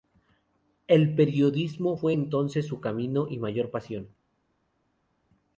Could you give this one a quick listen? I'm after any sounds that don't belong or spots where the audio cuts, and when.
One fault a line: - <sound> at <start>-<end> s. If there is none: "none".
none